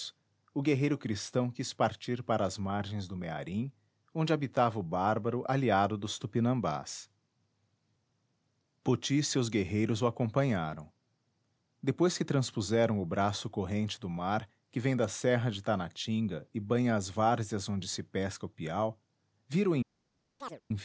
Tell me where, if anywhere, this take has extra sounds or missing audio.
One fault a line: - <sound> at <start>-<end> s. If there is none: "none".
- chirp at 20.4-20.6 s